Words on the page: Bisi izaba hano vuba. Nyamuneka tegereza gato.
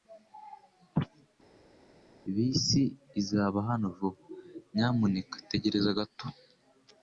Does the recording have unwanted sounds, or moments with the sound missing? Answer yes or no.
no